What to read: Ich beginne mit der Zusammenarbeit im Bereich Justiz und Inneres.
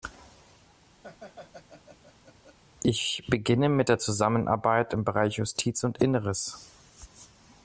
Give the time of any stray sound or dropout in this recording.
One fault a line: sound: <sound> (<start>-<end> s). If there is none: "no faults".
sound: laugh (1.0-2.6 s)